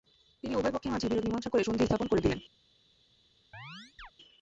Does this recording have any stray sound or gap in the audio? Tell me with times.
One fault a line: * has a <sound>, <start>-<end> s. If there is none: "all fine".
* has a chirp, 3.5-4.1 s